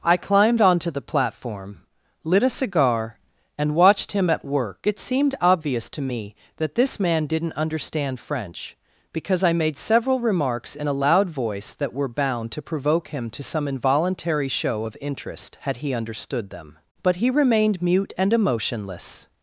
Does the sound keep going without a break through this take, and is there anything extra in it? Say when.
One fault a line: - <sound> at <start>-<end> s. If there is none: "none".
none